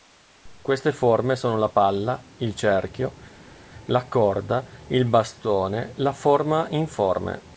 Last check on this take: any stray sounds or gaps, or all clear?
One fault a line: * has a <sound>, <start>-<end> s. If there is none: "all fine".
all fine